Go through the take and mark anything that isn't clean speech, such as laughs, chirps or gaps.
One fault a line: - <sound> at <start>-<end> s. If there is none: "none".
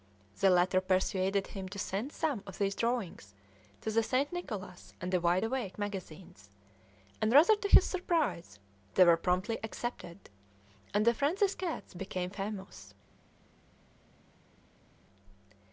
none